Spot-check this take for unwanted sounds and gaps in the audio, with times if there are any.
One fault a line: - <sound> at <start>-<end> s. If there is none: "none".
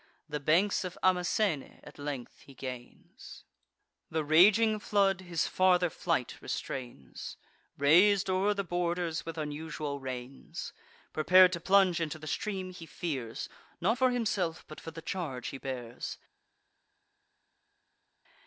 none